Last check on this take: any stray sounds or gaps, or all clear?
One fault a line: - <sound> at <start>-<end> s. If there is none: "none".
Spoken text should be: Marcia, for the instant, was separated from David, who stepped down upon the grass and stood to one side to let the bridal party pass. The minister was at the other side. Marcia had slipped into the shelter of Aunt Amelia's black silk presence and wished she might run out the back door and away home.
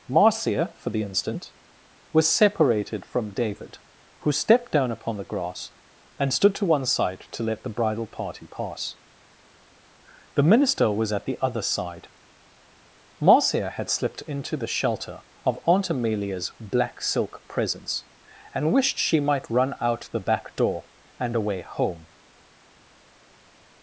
none